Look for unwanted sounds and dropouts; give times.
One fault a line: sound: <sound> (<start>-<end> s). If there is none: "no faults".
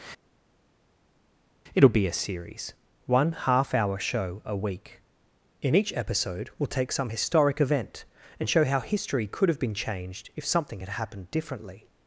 no faults